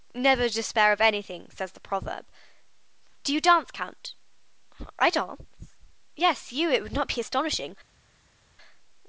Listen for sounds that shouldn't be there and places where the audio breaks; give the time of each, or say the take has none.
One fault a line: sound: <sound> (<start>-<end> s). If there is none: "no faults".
no faults